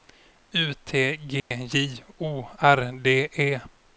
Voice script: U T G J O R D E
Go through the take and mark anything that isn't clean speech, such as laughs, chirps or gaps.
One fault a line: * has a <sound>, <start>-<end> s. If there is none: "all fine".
* has a dropout, 1.4-1.5 s